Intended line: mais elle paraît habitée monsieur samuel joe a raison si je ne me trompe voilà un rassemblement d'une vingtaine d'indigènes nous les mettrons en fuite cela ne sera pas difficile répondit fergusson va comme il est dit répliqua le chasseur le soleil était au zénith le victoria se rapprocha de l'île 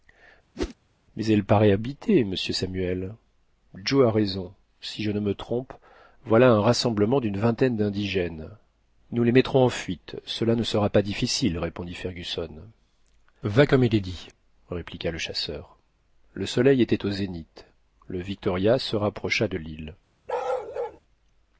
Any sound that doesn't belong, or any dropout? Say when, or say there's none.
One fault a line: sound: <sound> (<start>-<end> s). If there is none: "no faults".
sound: whoosh (0.5-0.7 s)
sound: bark (20.3-21.0 s)